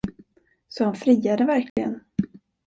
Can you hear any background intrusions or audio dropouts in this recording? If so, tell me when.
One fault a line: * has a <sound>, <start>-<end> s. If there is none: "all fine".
* has a dropout, 1.7-1.8 s